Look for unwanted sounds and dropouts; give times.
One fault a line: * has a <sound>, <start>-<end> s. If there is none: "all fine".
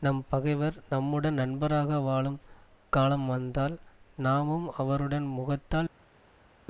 all fine